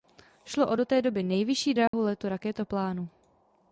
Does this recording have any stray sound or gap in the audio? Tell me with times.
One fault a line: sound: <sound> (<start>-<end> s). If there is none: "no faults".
sound: dropout (1.9-1.9 s)